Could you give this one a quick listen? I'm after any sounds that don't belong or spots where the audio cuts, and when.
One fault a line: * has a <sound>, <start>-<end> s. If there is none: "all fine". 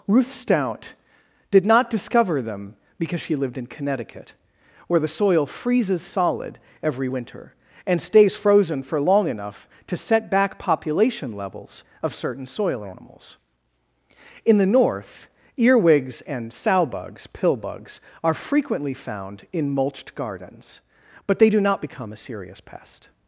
all fine